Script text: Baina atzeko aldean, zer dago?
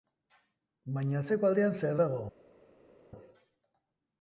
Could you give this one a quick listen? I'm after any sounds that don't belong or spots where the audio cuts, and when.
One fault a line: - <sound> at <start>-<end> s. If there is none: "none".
none